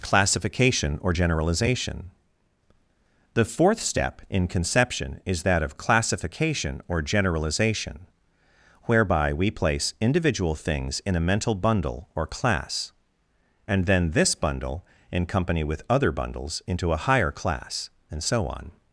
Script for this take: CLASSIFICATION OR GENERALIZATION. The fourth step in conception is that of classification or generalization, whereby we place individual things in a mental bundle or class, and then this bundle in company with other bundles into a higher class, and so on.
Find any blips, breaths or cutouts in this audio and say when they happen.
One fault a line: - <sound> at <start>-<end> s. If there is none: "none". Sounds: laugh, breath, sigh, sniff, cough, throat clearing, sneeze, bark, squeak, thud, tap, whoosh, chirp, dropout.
none